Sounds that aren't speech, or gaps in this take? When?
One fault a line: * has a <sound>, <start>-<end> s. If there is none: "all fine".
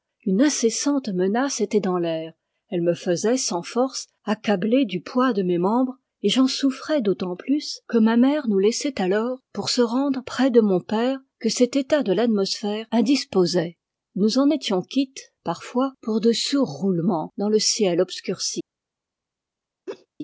* has a laugh, 19.9-20.1 s